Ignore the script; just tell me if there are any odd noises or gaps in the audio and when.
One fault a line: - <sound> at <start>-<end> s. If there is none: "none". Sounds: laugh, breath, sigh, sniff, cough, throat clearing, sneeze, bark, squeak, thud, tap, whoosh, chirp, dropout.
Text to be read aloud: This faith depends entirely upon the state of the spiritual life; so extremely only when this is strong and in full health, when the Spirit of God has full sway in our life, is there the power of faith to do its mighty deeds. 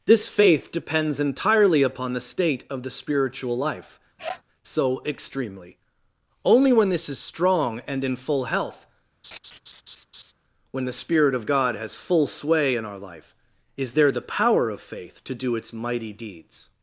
- sniff at 4.2-4.4 s
- laugh at 9.2-10.3 s